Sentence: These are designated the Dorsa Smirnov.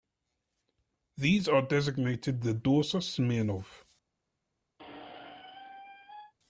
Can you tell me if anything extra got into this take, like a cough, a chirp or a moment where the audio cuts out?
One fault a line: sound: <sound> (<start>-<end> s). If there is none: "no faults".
sound: squeak (4.8-6.3 s)